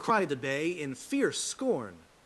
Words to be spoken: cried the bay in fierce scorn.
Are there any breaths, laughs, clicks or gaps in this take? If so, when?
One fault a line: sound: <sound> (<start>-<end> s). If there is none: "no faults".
no faults